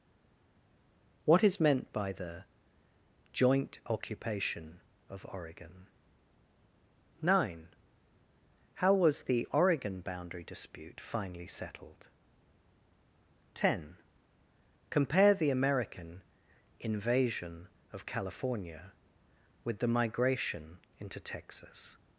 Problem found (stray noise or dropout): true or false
false